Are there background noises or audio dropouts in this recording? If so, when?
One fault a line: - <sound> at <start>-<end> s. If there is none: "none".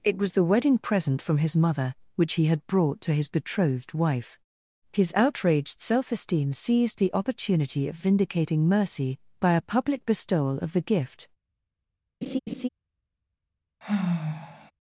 - laugh at 12.2-12.7 s
- sigh at 13.8-14.7 s